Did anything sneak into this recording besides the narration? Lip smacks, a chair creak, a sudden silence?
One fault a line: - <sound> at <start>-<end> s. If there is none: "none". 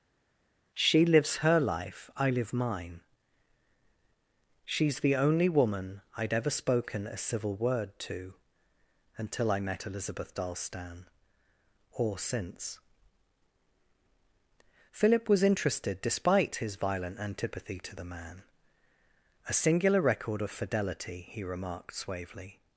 none